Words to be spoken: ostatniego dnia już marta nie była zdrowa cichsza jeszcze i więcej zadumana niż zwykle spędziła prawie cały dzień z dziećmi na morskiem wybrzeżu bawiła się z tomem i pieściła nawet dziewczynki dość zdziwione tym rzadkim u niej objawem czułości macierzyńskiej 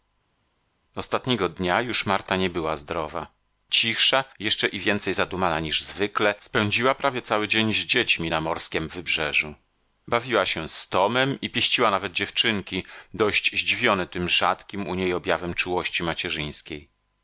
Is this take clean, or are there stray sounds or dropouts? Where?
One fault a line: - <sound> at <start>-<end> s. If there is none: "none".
none